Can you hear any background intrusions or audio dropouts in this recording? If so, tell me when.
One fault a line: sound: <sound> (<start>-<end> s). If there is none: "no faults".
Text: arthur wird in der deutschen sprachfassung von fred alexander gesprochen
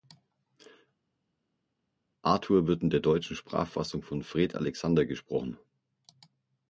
no faults